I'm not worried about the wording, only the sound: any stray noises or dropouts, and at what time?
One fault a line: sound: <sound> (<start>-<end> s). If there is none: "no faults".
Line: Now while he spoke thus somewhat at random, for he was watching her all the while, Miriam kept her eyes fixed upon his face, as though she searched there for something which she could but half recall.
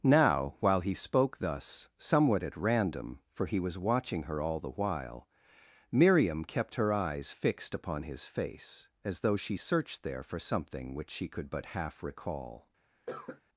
sound: cough (13.1-13.4 s)